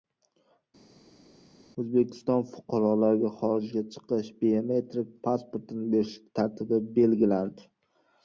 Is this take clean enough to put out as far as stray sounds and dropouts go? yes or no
yes